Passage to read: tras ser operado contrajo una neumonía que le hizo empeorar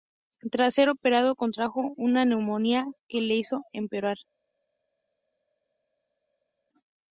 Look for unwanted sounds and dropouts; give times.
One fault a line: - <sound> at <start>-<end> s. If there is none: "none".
none